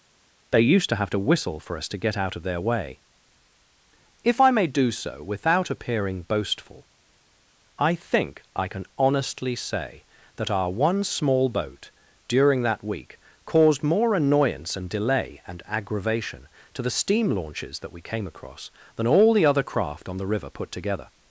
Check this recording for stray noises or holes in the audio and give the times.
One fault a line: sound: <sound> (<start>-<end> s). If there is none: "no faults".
no faults